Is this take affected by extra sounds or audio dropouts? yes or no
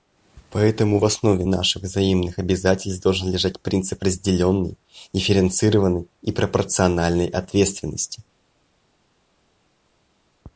no